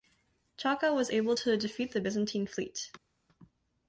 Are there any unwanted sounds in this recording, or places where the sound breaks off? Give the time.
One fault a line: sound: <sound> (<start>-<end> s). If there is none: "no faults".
no faults